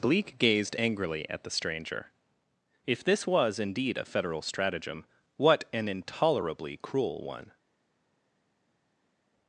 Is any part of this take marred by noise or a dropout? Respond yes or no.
no